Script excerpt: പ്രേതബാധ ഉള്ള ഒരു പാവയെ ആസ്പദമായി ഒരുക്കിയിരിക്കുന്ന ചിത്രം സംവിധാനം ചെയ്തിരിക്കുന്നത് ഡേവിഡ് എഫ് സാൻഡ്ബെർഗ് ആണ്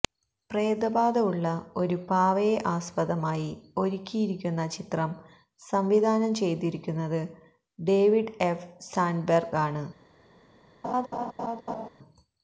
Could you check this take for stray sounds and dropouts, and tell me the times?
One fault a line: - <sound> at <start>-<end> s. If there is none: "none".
- laugh at 10.8-11.9 s